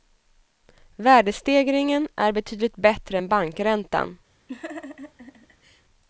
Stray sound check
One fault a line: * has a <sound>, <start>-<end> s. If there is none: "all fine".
* has a laugh, 4.5-5.8 s